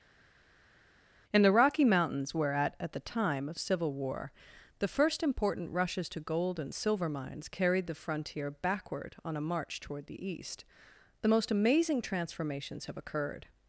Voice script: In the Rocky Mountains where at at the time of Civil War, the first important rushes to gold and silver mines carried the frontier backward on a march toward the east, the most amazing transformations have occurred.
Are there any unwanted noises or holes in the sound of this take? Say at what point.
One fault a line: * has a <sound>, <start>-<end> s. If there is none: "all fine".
all fine